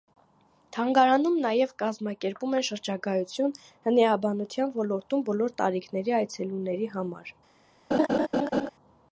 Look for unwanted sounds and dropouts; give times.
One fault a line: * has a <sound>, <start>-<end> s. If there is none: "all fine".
* has a laugh, 7.9-8.7 s